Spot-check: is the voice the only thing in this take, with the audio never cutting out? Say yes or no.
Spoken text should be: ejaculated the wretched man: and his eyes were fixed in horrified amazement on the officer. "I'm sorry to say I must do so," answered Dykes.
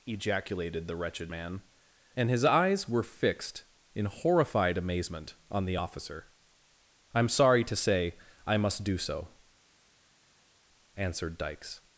yes